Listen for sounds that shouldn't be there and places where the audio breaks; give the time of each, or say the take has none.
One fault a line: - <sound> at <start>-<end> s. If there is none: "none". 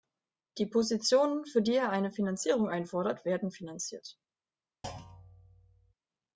- thud at 4.8-5.9 s